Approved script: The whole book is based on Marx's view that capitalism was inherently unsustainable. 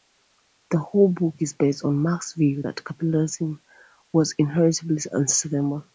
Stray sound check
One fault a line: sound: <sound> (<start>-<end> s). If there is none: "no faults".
no faults